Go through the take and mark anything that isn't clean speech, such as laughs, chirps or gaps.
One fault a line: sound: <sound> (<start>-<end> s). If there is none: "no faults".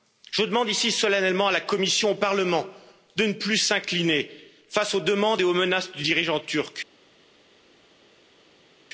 no faults